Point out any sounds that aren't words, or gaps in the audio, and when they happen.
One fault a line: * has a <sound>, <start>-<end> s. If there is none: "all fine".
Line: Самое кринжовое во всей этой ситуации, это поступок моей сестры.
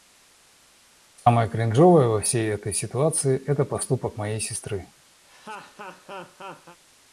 * has a laugh, 5.2-6.8 s